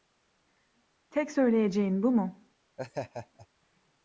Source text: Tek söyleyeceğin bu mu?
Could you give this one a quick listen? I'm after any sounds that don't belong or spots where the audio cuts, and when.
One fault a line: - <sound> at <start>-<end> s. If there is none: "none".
- laugh at 2.8-3.5 s